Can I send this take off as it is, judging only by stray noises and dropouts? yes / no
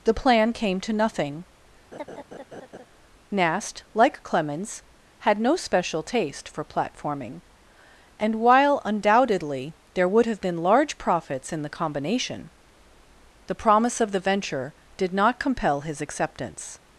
no